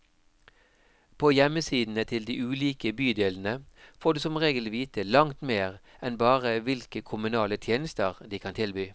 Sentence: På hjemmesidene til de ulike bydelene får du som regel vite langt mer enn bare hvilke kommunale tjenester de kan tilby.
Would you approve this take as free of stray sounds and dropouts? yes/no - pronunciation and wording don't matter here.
yes